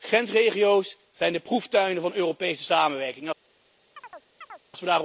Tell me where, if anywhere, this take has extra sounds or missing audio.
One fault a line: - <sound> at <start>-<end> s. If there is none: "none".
- chirp at 4.0-4.6 s